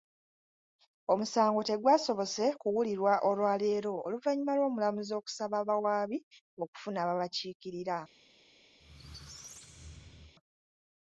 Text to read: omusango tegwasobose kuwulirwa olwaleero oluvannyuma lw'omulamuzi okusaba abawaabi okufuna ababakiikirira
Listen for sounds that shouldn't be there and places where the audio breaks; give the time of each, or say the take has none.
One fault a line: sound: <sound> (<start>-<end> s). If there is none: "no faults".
sound: squeak (8.8-10.3 s)